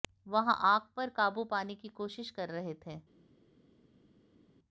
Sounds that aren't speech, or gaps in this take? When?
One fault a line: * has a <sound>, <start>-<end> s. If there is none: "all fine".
all fine